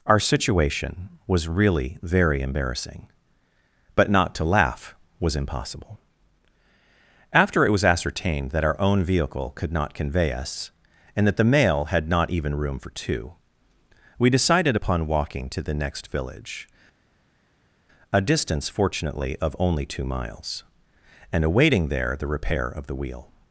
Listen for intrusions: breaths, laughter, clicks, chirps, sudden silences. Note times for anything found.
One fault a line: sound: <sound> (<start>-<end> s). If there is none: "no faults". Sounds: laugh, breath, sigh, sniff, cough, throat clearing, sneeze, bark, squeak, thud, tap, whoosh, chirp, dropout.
no faults